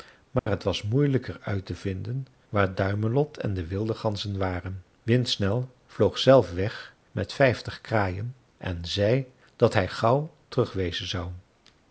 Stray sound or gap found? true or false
true